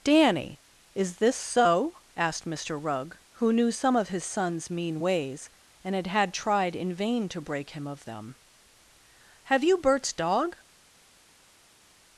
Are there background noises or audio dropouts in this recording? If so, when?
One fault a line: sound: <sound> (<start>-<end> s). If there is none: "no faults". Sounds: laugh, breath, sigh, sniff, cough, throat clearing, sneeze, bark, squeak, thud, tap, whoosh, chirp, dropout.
no faults